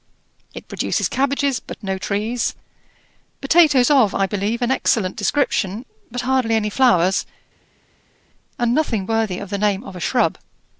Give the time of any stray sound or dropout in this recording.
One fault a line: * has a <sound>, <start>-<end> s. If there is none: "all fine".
all fine